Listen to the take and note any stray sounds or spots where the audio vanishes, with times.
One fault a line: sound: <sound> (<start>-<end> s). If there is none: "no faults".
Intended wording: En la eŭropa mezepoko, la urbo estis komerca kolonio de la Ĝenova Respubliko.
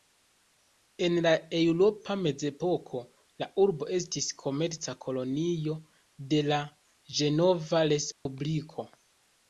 sound: dropout (8.1-8.3 s)